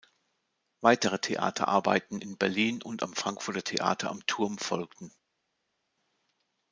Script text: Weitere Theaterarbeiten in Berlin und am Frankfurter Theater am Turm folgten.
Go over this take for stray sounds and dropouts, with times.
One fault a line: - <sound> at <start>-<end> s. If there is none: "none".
none